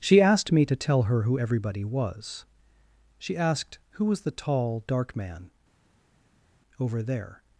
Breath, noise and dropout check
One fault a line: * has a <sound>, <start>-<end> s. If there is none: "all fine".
all fine